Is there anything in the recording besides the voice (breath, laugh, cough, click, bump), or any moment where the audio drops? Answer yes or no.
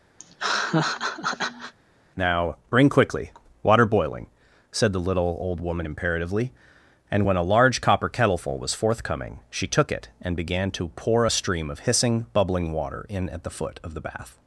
yes